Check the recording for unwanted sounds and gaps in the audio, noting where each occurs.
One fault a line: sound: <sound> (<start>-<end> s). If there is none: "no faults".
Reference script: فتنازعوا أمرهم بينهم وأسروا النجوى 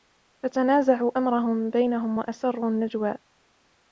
no faults